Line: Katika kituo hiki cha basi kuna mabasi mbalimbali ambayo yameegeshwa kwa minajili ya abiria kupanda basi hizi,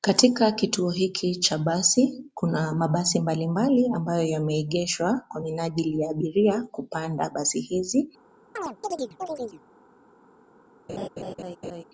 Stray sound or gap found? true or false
true